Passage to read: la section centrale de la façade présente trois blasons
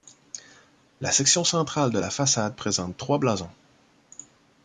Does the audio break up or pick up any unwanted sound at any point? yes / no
no